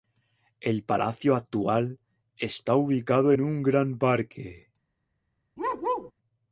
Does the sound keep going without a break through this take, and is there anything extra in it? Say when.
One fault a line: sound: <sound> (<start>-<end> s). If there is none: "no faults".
sound: bark (5.6-6.1 s)